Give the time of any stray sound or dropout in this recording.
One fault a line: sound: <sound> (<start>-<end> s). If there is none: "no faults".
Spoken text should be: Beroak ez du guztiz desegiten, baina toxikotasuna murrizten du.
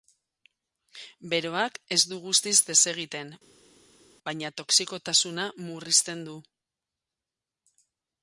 no faults